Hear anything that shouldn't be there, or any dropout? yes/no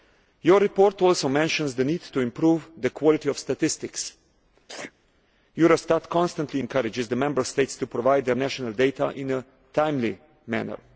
yes